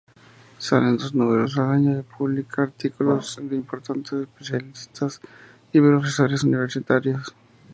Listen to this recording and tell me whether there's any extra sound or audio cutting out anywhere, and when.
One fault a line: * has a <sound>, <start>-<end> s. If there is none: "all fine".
all fine